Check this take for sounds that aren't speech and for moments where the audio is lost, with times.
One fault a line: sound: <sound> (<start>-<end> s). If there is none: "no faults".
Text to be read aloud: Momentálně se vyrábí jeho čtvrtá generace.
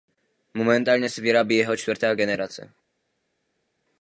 no faults